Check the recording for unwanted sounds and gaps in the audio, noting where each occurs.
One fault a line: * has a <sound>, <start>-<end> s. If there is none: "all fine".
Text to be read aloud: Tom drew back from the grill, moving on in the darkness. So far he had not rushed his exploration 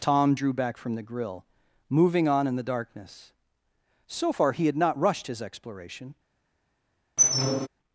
* has a squeak, 7.2-7.7 s